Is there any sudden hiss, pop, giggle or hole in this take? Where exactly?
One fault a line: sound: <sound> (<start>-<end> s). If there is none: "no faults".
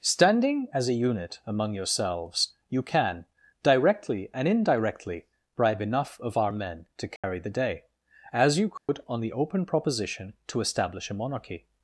sound: dropout (7.2-7.2 s)
sound: dropout (8.8-8.9 s)